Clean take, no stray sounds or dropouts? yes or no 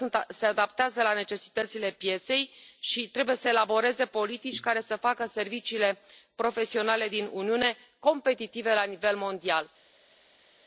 yes